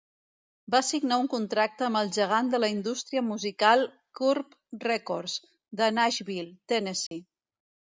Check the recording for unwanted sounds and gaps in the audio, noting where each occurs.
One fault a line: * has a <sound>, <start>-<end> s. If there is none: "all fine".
* has a dropout, 7.1-7.1 s